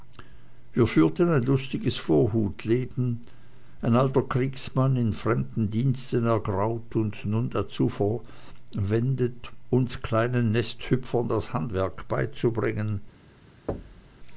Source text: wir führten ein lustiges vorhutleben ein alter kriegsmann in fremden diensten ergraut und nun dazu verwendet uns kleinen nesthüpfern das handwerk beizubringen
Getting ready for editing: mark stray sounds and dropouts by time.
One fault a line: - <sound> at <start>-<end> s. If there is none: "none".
- thud at 13.7-14.2 s